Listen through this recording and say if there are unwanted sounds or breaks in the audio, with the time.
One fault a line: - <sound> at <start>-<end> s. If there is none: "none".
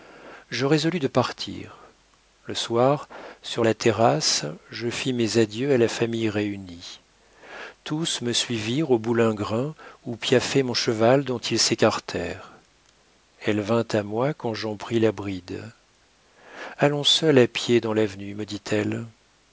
none